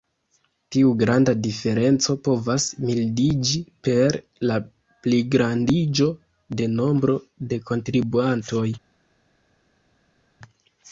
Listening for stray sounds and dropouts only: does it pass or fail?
pass